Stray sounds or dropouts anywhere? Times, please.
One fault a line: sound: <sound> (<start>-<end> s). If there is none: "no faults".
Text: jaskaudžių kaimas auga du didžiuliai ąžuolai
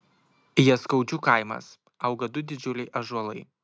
no faults